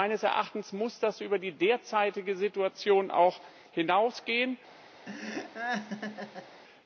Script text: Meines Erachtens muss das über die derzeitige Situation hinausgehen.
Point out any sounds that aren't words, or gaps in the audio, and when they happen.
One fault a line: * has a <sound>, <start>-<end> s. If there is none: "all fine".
* has a laugh, 5.1-6.6 s